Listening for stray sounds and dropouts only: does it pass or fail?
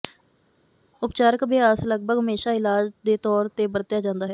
pass